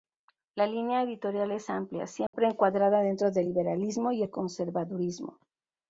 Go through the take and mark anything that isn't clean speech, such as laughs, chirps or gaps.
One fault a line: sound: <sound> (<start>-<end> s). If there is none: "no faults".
sound: dropout (2.3-2.3 s)